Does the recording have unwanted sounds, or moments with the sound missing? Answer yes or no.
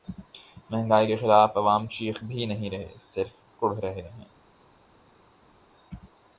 no